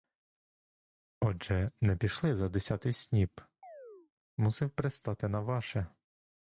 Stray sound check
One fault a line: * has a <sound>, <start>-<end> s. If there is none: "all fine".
* has a chirp, 3.6-4.1 s